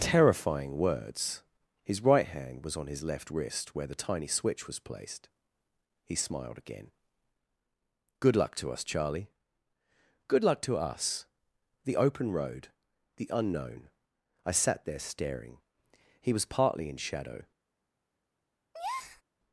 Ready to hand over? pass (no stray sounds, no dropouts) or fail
fail